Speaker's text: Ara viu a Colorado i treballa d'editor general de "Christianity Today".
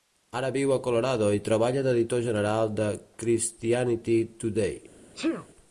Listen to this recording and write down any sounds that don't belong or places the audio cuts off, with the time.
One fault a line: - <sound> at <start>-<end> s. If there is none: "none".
- sneeze at 5.1-5.5 s